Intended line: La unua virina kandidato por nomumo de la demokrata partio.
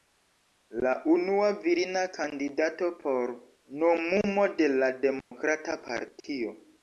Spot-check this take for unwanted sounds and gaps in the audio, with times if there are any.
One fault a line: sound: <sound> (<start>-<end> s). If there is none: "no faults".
sound: dropout (5.2-5.3 s)